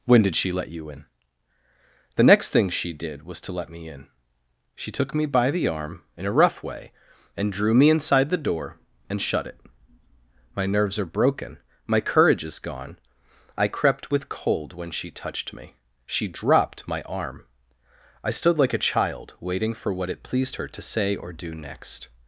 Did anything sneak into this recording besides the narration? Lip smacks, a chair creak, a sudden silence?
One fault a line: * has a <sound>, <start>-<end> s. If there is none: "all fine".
all fine